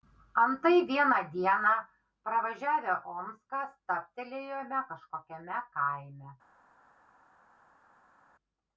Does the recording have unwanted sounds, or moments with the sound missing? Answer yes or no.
no